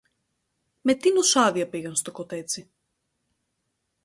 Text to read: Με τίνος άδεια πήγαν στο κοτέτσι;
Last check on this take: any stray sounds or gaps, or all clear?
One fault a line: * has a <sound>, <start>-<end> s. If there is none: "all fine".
all fine